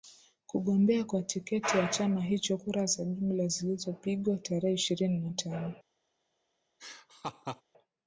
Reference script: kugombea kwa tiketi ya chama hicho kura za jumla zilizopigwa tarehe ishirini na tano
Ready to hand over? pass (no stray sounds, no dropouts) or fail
fail